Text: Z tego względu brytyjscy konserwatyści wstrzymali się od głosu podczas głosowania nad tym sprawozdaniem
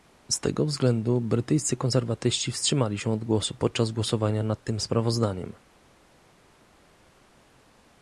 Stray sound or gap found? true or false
false